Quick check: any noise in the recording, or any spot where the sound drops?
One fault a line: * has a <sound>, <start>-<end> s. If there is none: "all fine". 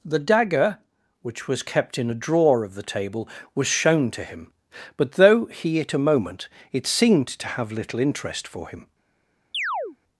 * has a chirp, 9.5-10.0 s